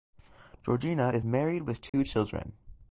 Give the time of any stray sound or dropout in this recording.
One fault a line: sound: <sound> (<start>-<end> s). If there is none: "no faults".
sound: dropout (1.9-1.9 s)